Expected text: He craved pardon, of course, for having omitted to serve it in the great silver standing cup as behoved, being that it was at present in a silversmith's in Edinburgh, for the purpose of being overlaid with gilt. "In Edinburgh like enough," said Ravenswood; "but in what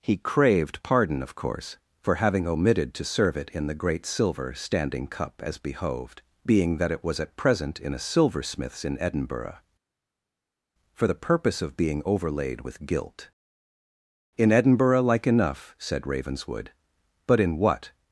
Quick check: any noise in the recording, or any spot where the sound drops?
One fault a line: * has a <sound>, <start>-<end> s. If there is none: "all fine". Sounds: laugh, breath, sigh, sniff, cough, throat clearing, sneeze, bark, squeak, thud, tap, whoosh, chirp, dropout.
all fine